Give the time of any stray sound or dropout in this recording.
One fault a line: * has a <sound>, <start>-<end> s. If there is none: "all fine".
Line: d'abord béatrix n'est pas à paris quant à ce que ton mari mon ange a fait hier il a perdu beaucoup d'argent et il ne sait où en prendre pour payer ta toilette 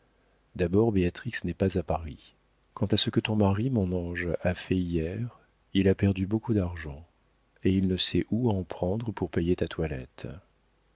all fine